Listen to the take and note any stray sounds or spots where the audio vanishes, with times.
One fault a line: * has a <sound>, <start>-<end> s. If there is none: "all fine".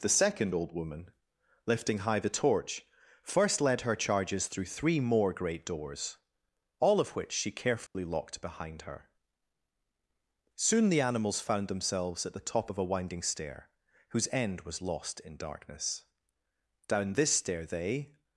* has a dropout, 7.9-7.9 s